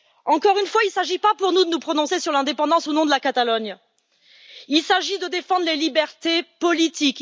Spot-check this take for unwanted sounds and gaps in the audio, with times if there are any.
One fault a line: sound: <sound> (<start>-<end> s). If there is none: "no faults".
no faults